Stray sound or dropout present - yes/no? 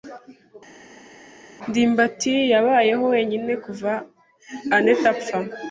no